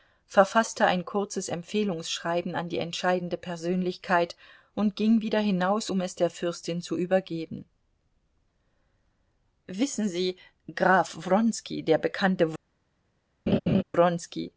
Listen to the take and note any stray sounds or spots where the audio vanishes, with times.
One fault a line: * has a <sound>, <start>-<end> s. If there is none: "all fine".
* has a laugh, 13.5-13.8 s